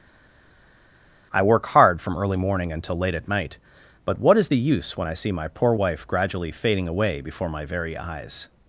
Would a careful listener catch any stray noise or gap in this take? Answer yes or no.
no